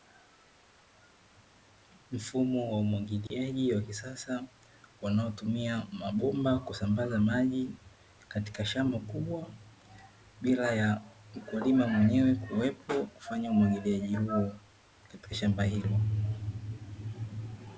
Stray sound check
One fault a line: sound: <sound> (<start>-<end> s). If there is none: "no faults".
sound: dropout (3.3-3.3 s)